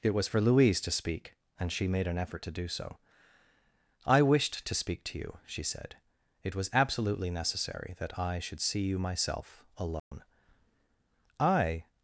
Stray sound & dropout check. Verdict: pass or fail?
fail